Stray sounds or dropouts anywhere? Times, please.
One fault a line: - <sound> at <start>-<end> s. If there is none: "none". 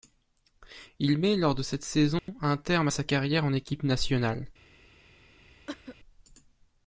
- dropout at 2.2-2.3 s
- cough at 5.7-6.0 s